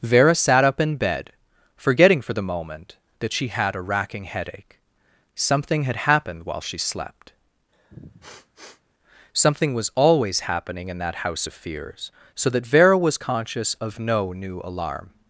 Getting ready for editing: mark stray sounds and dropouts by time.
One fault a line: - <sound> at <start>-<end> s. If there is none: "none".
- sniff at 7.7-8.8 s